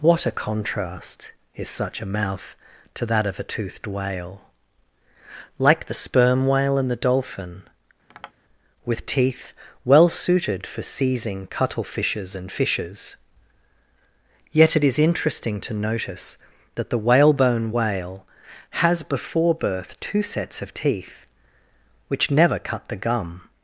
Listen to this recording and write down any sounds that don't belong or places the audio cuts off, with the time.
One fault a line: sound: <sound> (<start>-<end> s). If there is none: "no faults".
sound: tap (8.1-8.3 s)